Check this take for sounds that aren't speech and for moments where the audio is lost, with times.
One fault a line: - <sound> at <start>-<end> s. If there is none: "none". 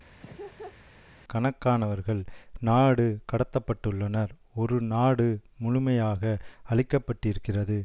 - laugh at 0.2-0.8 s